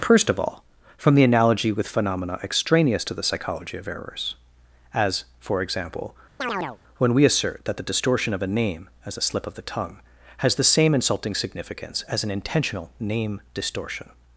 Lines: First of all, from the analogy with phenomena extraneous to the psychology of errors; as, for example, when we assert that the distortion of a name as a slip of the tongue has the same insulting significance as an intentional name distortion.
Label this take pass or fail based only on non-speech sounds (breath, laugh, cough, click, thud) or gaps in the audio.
fail